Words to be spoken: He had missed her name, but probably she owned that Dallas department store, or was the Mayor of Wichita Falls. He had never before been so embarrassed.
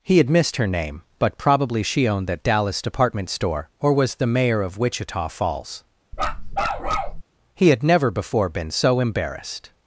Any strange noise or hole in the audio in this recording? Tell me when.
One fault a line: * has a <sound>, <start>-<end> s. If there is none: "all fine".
* has a bark, 6.1-7.2 s